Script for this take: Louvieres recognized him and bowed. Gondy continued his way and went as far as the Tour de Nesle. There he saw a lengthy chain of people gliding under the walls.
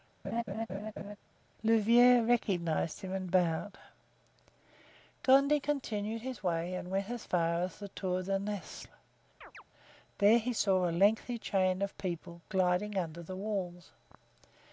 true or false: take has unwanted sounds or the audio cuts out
true